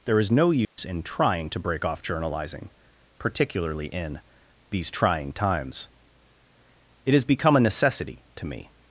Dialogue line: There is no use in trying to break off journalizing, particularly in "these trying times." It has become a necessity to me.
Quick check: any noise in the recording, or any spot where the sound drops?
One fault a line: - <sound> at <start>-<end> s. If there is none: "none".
- dropout at 0.6-0.8 s